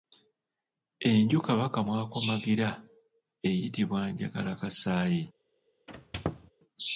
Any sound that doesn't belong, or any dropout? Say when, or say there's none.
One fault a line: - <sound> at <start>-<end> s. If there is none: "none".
- squeak at 5.9-6.5 s